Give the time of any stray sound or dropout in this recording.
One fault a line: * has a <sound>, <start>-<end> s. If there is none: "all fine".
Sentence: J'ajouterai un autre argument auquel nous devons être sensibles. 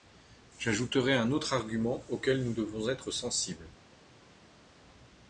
all fine